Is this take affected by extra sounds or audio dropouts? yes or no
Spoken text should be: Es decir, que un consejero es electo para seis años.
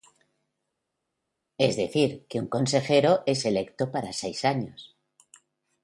no